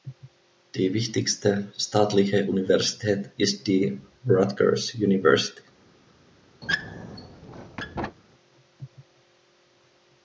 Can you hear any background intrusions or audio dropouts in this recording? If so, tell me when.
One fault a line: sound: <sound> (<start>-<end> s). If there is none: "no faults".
sound: squeak (6.6-8.2 s)